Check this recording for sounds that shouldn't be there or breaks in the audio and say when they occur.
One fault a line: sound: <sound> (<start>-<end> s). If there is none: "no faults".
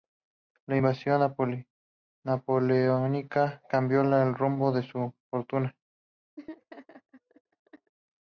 sound: laugh (6.4-7.9 s)